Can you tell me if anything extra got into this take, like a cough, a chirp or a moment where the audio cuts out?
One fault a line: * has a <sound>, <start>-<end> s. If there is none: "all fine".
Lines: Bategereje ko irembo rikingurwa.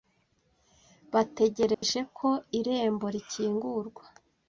* has a dropout, 1.7-1.8 s